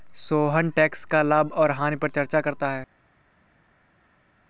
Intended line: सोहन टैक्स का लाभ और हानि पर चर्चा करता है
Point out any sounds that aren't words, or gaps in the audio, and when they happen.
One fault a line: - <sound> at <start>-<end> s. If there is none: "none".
none